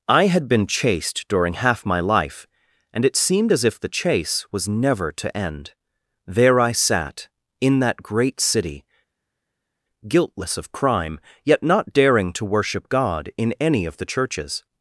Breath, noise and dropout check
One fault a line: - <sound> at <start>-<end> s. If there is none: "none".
none